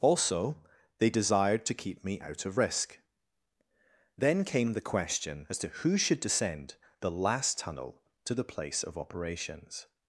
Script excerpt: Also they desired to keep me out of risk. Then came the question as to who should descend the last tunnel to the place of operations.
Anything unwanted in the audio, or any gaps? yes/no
no